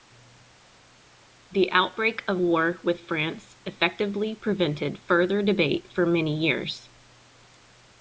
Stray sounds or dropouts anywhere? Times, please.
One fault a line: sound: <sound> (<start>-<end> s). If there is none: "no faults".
no faults